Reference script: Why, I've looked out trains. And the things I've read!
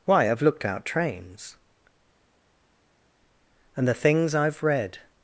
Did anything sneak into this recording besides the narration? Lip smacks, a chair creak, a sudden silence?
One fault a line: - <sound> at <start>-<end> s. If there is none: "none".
none